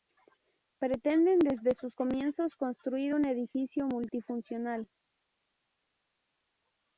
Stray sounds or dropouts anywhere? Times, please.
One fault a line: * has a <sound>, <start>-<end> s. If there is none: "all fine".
all fine